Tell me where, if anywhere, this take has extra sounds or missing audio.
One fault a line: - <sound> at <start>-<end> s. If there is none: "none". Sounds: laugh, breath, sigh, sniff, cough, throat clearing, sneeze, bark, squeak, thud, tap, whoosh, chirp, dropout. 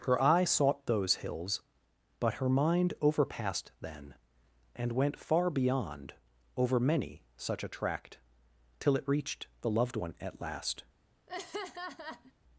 - laugh at 11.3-12.3 s